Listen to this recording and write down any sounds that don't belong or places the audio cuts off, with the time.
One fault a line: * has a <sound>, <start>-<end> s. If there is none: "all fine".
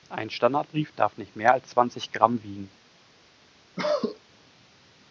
* has a cough, 3.8-4.2 s